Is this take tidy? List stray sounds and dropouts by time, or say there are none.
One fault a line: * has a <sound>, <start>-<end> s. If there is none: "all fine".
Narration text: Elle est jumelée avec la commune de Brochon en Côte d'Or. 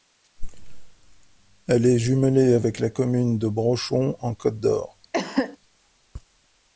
* has a cough, 5.1-5.6 s